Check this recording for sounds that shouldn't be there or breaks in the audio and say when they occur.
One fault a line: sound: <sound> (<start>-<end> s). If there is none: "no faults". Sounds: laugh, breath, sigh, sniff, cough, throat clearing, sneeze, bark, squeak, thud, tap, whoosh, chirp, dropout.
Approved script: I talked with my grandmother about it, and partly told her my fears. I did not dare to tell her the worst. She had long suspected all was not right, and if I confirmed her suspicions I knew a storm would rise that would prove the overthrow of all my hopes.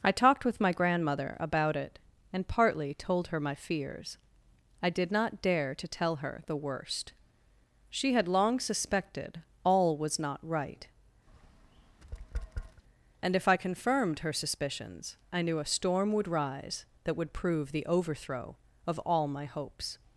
sound: tap (11.3-12.8 s)